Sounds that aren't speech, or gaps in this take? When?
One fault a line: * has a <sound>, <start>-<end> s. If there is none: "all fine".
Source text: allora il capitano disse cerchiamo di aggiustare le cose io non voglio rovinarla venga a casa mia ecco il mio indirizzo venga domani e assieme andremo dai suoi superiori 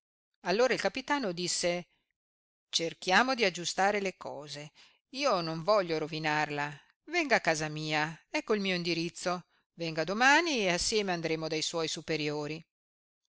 all fine